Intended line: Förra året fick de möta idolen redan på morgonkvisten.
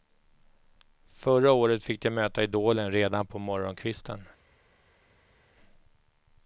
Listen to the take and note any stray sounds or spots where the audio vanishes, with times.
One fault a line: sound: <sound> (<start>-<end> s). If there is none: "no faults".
no faults